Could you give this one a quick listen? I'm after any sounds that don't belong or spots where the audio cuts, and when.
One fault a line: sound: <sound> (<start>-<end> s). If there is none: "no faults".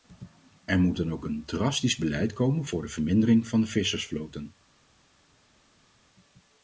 no faults